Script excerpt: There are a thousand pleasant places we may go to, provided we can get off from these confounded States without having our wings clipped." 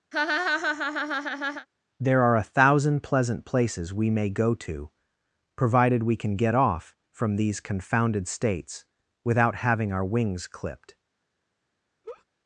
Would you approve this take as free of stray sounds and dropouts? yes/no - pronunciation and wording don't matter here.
no